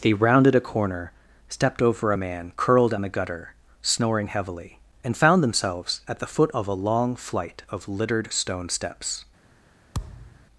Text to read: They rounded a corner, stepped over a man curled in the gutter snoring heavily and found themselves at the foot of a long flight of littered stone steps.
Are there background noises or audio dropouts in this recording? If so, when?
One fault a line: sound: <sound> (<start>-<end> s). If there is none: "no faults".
sound: thud (9.9-10.5 s)